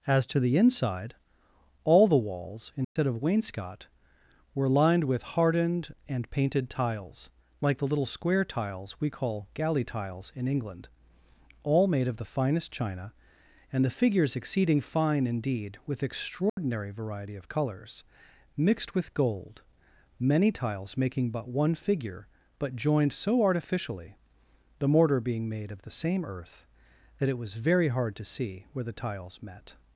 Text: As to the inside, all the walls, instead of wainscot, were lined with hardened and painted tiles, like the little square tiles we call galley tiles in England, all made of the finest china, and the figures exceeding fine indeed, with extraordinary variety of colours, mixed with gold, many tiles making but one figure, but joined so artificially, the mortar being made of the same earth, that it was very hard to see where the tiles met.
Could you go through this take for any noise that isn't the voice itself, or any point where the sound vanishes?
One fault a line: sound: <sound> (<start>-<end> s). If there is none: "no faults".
sound: dropout (2.8-3.0 s)
sound: dropout (16.5-16.6 s)